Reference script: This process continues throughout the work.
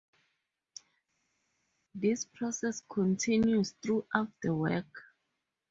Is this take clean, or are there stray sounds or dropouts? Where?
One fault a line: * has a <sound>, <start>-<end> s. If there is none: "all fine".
all fine